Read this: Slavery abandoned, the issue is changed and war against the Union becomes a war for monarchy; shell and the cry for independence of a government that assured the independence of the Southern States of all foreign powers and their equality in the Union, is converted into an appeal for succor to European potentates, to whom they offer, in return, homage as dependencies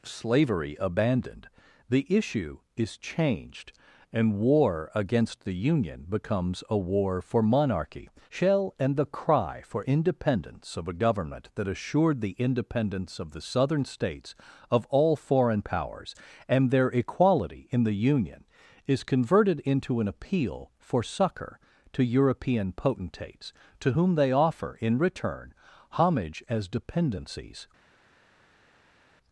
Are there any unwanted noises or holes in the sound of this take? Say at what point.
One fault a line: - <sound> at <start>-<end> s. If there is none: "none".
none